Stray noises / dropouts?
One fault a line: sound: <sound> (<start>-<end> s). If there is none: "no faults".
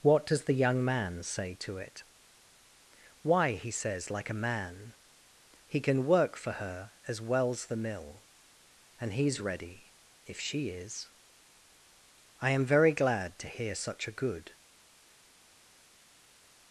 no faults